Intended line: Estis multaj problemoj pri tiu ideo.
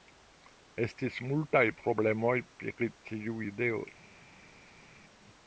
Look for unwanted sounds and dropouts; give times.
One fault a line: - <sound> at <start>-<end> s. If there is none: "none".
none